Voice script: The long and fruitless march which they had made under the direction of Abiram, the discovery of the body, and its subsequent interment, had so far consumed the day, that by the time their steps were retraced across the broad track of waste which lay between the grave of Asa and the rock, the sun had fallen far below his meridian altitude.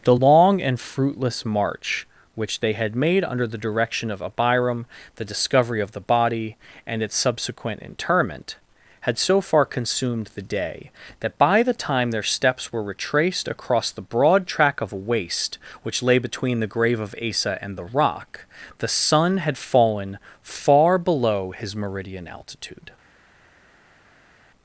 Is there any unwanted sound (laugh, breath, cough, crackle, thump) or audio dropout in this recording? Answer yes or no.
no